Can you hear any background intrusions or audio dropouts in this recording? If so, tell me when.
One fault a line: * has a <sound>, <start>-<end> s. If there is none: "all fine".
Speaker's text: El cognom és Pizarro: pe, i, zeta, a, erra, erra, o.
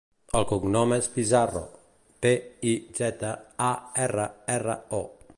all fine